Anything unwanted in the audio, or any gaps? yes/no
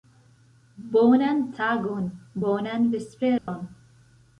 yes